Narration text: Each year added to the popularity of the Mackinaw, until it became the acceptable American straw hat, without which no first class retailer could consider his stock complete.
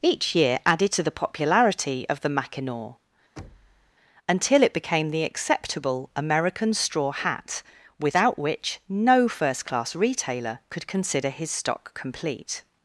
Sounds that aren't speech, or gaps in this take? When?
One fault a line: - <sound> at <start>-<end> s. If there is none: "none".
- thud at 3.4-3.9 s